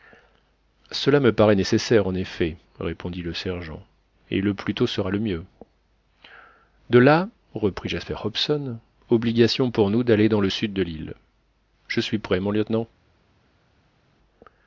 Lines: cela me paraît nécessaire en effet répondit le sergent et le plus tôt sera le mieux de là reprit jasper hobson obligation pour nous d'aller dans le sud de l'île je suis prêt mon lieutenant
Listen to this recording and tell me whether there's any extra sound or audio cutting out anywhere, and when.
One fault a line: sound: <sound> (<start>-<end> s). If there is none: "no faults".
no faults